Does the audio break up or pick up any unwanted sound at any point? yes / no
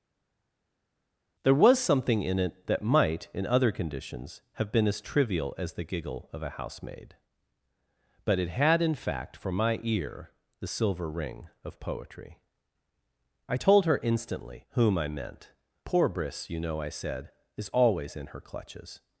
no